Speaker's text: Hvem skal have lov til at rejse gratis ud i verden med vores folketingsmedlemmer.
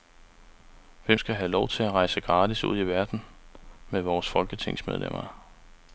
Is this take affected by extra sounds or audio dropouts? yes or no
no